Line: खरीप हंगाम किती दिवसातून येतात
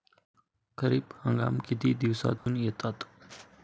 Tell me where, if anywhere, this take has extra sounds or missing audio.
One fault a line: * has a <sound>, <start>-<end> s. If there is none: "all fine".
* has a dropout, 2.4-2.5 s